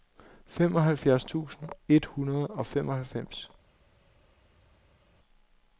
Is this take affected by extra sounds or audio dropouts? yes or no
no